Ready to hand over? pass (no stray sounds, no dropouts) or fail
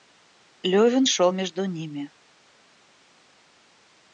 pass